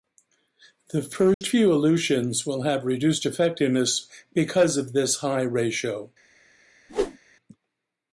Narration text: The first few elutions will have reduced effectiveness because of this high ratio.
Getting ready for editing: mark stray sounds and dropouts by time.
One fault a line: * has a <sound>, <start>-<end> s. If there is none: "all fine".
* has a dropout, 1.3-1.4 s
* has a whoosh, 6.9-7.2 s